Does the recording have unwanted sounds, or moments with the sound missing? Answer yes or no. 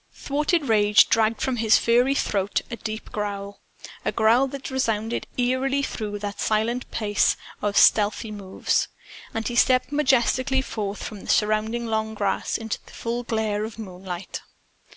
no